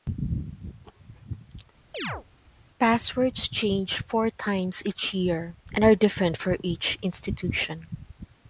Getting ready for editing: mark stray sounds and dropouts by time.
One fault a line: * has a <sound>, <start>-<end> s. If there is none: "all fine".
* has a chirp, 1.9-2.2 s